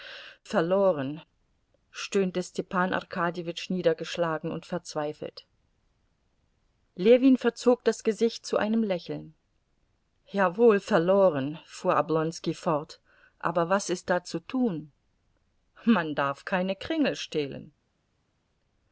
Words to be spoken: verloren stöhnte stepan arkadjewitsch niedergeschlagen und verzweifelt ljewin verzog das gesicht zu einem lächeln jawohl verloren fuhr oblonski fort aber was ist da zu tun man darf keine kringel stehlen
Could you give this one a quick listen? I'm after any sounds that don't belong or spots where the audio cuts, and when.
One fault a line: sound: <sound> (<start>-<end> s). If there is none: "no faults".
no faults